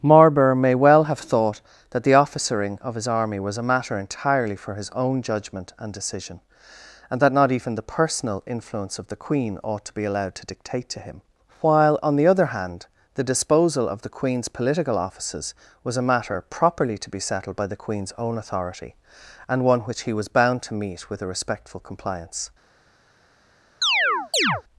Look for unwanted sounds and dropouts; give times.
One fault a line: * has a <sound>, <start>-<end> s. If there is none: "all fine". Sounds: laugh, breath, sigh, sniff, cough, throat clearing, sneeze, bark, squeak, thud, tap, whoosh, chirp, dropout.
* has a chirp, 23.8-24.6 s